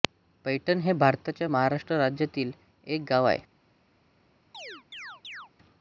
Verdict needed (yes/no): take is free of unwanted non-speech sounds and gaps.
no